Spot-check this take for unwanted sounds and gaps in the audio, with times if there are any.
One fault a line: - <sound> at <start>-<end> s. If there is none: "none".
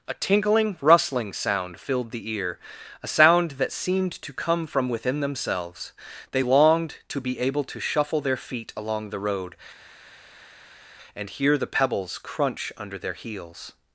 none